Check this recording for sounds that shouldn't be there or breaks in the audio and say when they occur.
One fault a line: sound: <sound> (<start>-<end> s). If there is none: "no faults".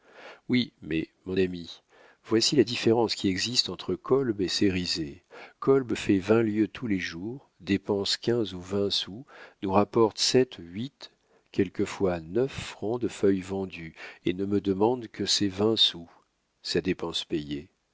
no faults